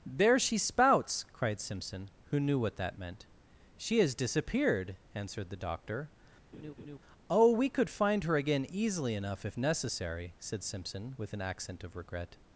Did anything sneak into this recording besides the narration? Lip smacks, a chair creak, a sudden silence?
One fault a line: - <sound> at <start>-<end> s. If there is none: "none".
- laugh at 6.5-7.0 s